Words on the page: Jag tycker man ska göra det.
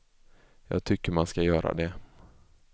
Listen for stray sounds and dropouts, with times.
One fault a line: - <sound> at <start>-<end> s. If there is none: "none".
none